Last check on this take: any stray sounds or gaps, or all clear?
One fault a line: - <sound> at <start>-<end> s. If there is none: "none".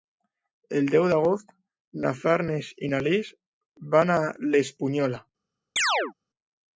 - chirp at 5.8-6.1 s